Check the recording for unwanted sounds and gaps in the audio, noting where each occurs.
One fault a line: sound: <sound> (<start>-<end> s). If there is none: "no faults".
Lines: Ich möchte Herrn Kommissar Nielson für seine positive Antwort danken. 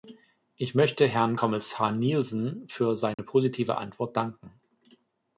sound: dropout (3.1-3.2 s)